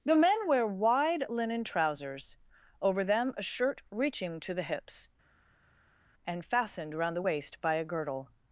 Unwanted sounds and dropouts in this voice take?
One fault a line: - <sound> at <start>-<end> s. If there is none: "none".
none